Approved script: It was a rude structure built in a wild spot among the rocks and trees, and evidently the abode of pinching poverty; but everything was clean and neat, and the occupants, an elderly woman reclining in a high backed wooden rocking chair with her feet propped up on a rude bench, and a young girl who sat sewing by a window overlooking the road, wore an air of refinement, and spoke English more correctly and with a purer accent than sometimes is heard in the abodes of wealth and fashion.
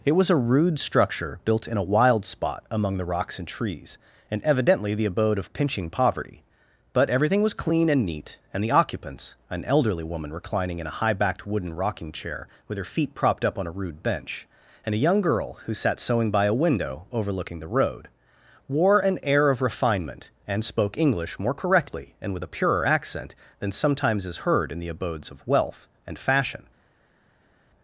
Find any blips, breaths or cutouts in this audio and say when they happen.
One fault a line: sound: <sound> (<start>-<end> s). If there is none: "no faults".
no faults